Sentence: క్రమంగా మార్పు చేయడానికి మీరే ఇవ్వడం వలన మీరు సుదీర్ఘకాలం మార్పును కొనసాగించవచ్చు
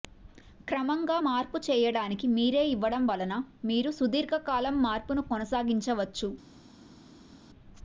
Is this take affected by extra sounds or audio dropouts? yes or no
no